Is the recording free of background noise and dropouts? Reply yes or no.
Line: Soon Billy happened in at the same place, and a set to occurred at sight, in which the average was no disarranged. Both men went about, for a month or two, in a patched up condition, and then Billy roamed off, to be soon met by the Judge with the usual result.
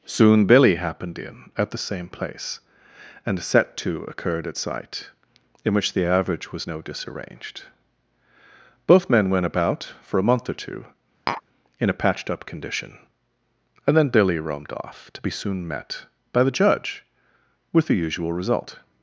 no